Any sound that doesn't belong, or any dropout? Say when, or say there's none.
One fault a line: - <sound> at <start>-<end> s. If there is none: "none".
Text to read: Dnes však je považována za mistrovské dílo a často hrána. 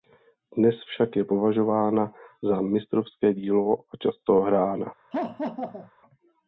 - laugh at 5.1-5.9 s